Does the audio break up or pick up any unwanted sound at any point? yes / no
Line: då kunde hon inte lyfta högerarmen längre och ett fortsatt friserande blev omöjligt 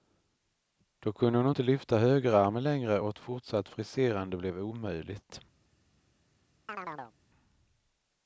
yes